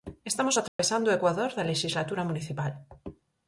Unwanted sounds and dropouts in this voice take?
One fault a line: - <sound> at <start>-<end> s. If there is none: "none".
- dropout at 0.7-0.8 s